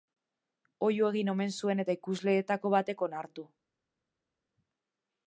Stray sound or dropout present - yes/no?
no